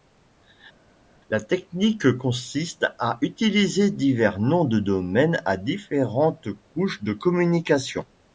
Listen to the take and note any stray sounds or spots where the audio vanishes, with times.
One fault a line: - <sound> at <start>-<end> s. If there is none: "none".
none